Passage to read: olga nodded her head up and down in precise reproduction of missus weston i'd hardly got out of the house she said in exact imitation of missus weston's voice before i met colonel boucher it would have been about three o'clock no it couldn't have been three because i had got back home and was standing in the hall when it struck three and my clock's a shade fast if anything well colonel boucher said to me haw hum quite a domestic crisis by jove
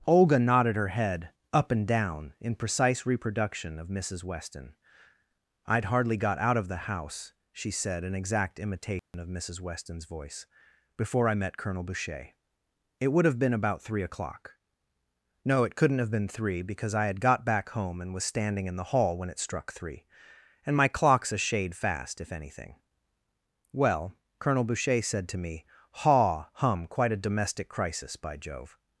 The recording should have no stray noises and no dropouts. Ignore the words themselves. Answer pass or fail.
fail